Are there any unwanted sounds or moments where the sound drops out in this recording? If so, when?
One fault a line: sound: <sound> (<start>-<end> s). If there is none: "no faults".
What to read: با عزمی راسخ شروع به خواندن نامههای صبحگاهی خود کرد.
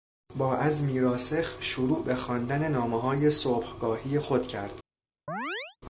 sound: chirp (5.3-5.8 s)